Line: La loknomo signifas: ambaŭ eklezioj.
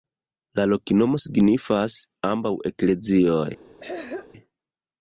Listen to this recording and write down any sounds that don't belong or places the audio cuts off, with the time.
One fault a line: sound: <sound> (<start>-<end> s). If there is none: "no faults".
sound: throat clearing (3.8-4.3 s)